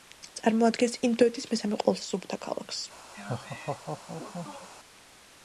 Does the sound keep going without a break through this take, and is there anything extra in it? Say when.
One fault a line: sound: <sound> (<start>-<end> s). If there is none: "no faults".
sound: laugh (3.1-4.7 s)